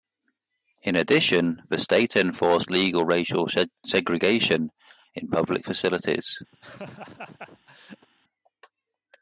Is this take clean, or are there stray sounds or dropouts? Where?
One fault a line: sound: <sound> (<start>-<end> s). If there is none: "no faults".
sound: laugh (6.5-8.1 s)